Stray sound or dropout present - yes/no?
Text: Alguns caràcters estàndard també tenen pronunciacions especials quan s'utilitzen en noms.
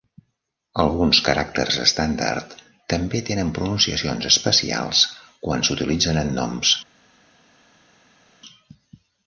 no